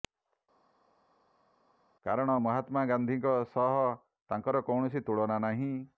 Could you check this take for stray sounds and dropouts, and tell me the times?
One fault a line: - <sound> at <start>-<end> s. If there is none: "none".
none